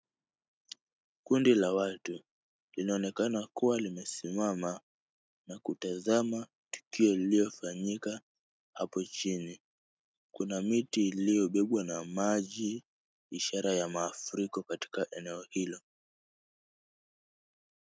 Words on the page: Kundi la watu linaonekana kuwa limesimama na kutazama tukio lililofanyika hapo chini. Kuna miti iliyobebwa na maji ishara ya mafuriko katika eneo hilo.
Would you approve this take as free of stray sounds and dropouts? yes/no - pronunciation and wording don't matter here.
yes